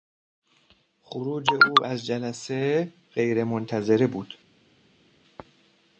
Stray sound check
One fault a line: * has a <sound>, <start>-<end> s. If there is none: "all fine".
all fine